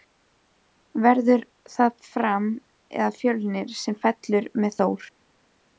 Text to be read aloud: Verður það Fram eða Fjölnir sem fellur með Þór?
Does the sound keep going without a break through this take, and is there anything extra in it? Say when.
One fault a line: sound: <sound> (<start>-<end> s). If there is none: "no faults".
no faults